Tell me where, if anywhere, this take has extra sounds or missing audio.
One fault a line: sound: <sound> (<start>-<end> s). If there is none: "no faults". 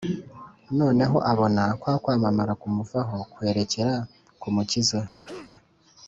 sound: cough (5.2-5.5 s)